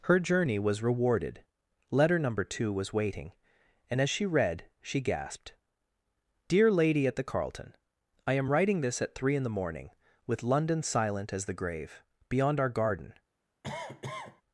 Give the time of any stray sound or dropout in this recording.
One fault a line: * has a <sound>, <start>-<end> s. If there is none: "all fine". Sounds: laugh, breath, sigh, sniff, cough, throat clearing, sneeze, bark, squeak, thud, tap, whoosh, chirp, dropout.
* has a cough, 13.6-14.4 s